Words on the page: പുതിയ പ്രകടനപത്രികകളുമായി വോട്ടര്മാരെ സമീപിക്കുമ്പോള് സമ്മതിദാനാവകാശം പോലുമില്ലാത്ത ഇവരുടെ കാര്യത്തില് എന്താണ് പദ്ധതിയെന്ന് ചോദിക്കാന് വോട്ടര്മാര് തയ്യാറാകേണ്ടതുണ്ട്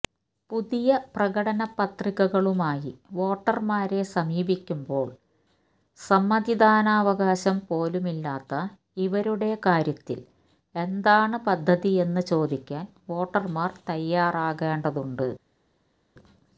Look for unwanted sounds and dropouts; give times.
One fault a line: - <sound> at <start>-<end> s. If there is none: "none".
none